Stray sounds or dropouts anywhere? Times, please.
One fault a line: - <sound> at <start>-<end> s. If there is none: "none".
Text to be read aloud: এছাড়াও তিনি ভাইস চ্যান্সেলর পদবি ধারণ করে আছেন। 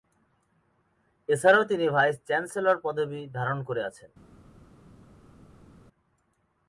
none